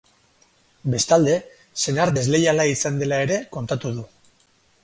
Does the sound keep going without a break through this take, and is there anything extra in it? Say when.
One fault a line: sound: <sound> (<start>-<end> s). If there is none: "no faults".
no faults